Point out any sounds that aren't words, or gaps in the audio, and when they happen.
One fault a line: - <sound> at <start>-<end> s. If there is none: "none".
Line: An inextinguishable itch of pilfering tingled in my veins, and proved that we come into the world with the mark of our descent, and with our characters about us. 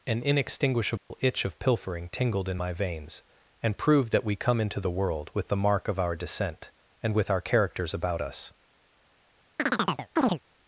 - dropout at 1.0-1.1 s
- chirp at 9.6-10.4 s